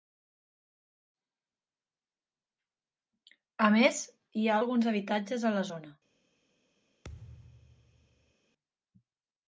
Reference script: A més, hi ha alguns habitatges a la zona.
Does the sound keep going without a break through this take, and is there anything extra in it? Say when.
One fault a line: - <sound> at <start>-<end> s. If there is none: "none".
- thud at 7.0-8.3 s